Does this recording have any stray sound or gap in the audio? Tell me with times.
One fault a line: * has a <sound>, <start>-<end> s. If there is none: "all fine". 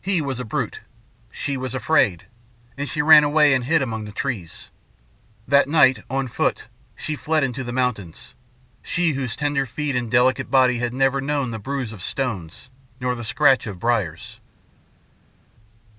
all fine